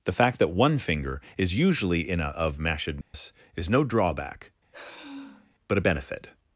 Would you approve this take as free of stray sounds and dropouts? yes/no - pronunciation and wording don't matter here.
no